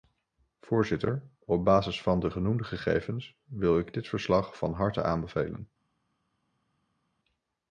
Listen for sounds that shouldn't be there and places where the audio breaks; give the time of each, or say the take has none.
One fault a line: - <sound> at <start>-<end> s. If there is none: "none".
none